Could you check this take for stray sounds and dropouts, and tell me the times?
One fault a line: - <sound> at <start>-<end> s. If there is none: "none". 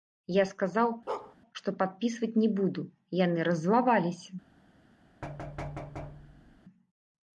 - bark at 1.1-1.4 s
- thud at 5.2-6.6 s